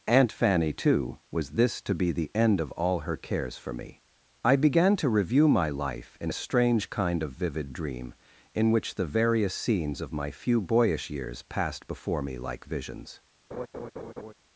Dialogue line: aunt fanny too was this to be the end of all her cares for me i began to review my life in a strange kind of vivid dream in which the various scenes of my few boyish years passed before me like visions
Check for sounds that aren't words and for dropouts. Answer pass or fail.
fail